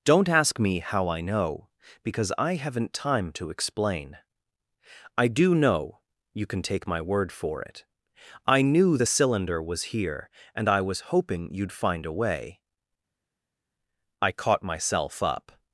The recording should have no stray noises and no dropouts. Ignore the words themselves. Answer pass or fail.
pass